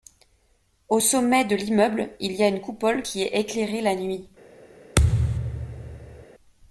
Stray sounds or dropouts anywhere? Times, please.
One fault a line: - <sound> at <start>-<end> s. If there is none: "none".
- thud at 5.0-6.3 s